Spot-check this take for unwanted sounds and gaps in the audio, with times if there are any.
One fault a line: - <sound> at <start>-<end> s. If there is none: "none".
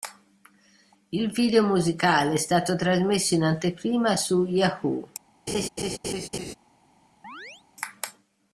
- laugh at 5.5-6.5 s
- chirp at 7.2-7.6 s